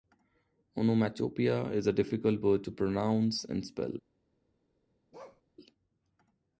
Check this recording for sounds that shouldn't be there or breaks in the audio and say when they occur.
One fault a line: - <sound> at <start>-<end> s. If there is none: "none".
- bark at 5.1-5.4 s